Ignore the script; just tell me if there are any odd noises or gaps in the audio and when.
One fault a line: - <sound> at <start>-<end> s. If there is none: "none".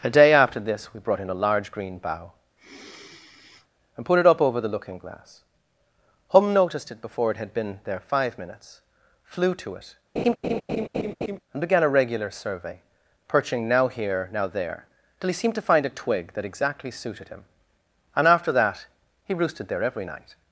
- sigh at 2.6-3.7 s
- laugh at 10.2-11.4 s